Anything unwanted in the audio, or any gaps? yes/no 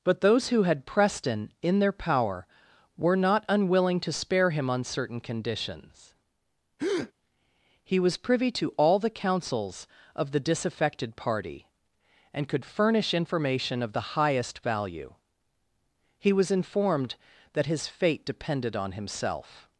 yes